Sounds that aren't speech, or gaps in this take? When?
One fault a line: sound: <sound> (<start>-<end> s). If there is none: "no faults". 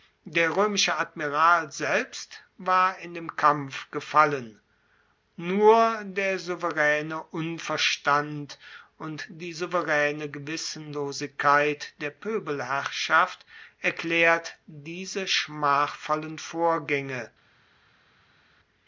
no faults